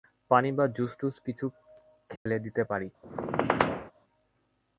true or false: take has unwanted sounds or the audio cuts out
true